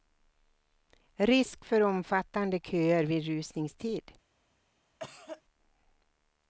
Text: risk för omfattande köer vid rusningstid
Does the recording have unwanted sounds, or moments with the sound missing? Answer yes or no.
yes